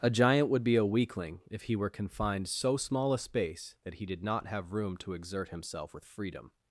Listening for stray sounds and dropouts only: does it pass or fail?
pass